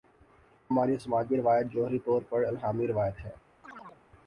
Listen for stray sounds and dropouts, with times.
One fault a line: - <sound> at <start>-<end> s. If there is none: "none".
- chirp at 3.6-4.0 s